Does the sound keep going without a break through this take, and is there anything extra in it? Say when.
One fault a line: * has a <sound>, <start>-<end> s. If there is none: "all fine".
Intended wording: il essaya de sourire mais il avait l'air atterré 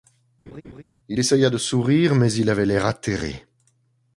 * has a laugh, 0.5-0.8 s